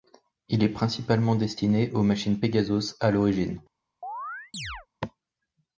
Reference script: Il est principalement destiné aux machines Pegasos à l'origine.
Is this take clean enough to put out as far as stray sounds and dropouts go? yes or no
no